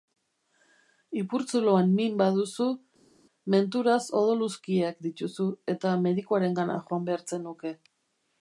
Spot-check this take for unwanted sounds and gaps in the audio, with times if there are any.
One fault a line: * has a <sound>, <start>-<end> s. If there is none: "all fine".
all fine